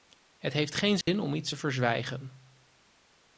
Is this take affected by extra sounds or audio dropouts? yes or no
yes